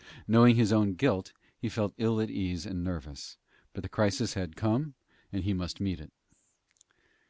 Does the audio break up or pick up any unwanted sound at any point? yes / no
no